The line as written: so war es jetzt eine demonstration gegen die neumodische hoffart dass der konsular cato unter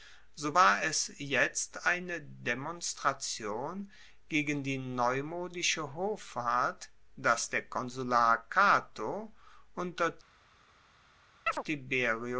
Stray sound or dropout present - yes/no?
yes